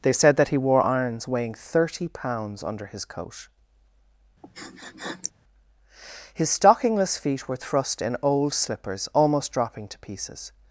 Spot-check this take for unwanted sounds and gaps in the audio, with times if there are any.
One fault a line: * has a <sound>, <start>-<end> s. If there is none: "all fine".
* has a sniff, 4.4-5.3 s